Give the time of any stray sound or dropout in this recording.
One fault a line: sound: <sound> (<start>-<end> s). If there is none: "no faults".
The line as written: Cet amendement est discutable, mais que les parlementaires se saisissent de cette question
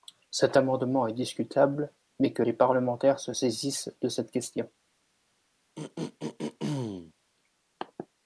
sound: throat clearing (5.8-7.1 s)